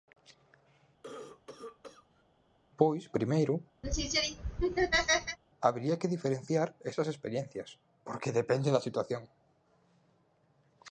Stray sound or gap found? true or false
true